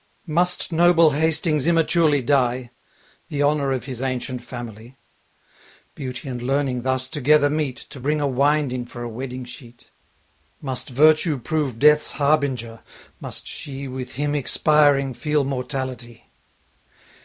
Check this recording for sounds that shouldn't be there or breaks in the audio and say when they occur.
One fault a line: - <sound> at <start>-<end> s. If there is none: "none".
none